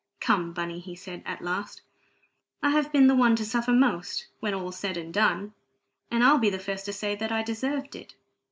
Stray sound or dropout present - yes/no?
no